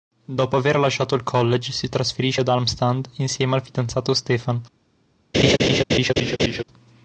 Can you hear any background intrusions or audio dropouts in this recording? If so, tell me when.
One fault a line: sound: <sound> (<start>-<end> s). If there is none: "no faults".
sound: laugh (5.3-6.6 s)